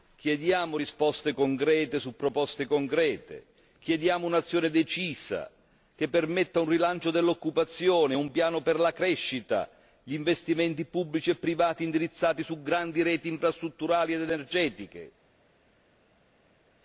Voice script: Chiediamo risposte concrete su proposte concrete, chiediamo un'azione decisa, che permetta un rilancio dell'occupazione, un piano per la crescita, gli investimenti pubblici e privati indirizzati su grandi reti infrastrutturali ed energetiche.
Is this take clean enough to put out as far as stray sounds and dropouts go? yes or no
yes